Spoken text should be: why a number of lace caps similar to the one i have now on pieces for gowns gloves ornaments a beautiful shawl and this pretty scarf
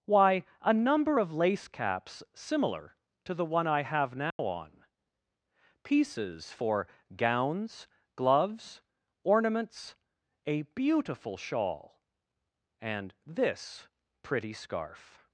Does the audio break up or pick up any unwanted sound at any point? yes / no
yes